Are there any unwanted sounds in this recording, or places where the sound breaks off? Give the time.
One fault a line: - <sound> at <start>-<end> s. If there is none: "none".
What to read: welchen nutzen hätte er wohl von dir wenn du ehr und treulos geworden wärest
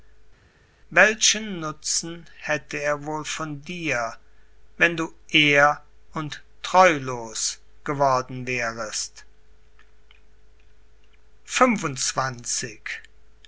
none